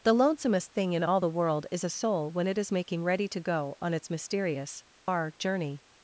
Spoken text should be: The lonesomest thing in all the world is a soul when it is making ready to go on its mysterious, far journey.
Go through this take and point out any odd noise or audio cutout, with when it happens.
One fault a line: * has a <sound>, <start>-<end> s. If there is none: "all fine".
* has a dropout, 5.0-5.1 s